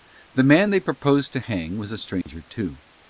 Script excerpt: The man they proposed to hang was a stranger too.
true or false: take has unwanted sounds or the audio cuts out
true